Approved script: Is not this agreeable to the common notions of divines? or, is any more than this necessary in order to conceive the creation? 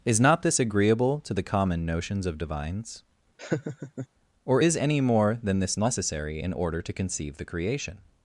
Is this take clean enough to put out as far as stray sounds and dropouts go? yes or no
no